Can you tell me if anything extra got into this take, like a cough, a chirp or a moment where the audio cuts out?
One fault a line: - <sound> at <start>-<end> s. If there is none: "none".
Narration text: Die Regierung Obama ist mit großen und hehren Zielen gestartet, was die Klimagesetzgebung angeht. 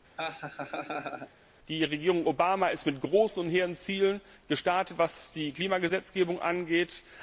- laugh at 0.2-1.3 s